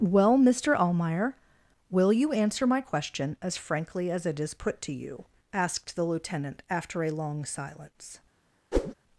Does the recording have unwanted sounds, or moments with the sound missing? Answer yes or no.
yes